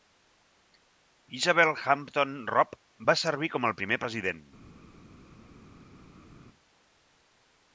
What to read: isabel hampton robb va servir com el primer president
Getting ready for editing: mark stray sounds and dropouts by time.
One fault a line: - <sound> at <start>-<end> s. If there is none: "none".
none